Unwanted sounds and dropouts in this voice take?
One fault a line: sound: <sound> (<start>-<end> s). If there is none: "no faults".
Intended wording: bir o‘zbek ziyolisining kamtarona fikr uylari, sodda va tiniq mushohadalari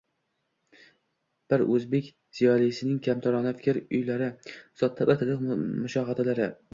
no faults